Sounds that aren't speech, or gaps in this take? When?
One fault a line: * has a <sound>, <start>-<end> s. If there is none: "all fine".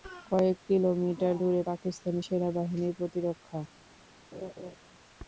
* has a laugh, 4.3-4.8 s